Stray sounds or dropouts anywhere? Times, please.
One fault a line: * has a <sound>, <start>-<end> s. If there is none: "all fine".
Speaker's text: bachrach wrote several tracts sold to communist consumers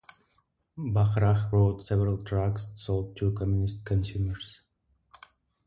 all fine